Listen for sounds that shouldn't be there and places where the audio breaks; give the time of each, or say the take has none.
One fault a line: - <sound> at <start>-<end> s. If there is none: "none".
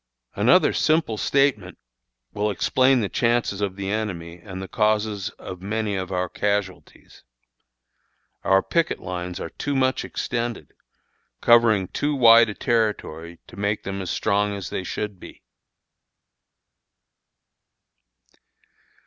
none